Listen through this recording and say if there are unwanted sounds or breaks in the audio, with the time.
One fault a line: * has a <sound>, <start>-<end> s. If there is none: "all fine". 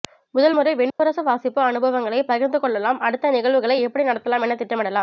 * has a dropout, 0.9-1.0 s